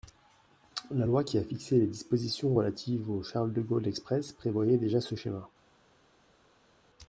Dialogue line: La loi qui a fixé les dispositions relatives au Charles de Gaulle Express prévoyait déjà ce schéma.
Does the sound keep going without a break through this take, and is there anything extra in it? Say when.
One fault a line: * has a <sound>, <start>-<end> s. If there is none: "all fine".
all fine